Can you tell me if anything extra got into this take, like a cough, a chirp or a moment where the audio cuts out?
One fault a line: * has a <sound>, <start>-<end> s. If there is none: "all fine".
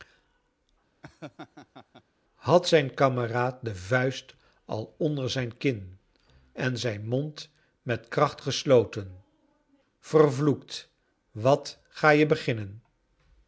* has a laugh, 1.0-2.0 s